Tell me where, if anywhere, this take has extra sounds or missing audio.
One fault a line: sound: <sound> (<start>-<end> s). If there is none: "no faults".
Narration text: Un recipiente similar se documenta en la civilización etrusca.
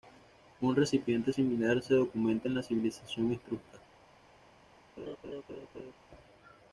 sound: laugh (5.0-5.9 s)